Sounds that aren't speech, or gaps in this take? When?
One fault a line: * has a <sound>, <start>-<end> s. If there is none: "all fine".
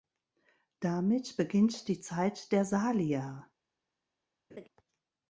* has a laugh, 4.5-4.7 s